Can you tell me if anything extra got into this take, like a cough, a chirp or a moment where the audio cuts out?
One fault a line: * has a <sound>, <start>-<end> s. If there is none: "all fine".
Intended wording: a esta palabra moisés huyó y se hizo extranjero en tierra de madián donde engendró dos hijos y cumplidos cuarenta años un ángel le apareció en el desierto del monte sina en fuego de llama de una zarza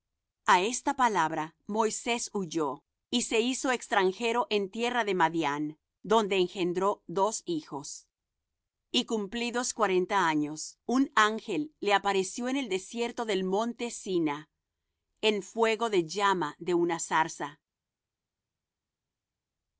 all fine